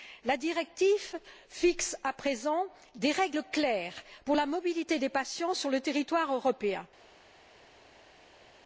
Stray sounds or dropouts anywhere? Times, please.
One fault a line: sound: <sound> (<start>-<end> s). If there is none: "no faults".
no faults